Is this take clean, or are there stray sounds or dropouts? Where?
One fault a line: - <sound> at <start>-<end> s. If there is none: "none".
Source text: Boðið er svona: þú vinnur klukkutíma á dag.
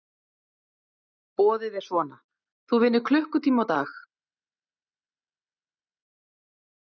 none